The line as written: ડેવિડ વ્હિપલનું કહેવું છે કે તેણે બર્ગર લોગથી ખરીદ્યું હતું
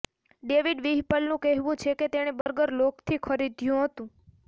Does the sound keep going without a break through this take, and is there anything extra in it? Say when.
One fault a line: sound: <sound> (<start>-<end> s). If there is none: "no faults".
sound: dropout (2.4-2.5 s)